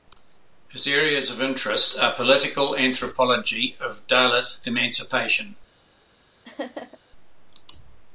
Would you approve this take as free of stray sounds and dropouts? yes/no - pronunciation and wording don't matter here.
no